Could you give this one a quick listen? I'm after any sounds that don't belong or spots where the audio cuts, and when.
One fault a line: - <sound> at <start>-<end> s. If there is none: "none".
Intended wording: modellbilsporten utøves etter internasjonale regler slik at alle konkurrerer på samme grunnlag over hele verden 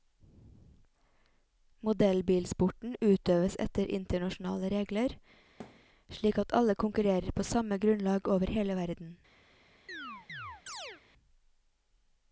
- thud at 5.6-5.9 s
- chirp at 9.9-11.0 s